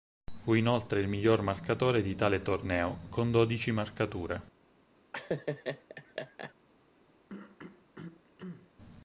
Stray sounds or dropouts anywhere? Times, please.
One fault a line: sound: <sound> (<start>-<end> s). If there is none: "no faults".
sound: laugh (5.1-6.5 s)
sound: throat clearing (7.3-8.7 s)